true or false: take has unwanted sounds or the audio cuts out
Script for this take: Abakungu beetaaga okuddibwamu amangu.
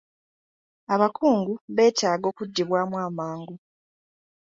false